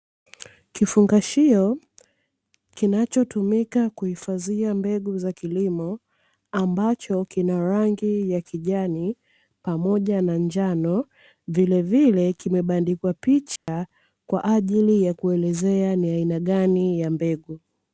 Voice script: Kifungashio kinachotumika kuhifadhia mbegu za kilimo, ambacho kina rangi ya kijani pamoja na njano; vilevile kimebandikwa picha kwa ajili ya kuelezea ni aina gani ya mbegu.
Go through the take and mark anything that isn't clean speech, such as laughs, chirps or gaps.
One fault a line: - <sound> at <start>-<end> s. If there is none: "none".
- dropout at 13.6-13.7 s